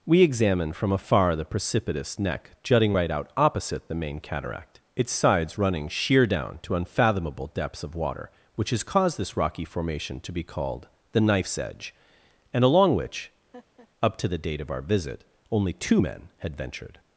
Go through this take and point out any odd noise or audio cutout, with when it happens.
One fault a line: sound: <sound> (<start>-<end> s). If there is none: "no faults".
sound: laugh (13.5-13.9 s)